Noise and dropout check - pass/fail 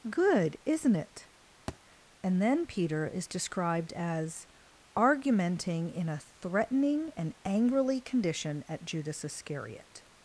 fail